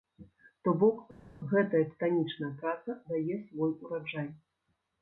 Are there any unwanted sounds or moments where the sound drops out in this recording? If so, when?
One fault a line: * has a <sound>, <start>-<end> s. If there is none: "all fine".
all fine